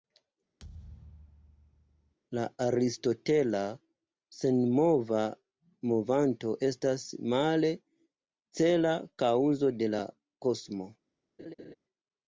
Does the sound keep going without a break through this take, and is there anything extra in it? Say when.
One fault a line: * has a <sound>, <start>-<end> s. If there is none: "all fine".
* has a thud, 0.6-2.1 s
* has a laugh, 11.4-11.7 s